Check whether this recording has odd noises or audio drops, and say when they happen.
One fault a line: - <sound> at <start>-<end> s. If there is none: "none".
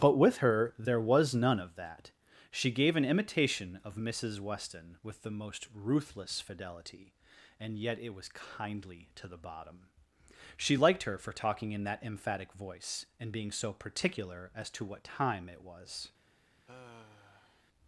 - sigh at 16.7-17.6 s